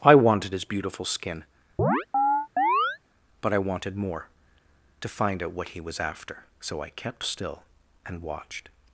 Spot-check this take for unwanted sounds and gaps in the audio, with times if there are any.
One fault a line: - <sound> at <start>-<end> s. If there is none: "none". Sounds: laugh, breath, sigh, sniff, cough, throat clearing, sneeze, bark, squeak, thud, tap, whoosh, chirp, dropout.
- chirp at 1.8-3.0 s